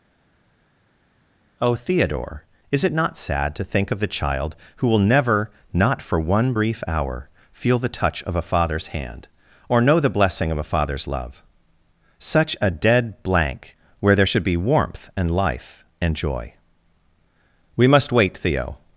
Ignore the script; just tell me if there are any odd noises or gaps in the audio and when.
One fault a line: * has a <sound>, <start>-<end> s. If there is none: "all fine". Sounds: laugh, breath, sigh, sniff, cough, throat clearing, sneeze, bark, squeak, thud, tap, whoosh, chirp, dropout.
all fine